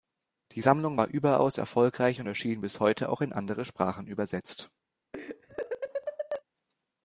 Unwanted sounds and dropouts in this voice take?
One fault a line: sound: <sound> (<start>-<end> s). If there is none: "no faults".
sound: laugh (5.1-6.4 s)